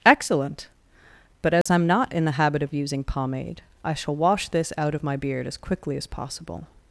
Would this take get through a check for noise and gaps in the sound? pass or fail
fail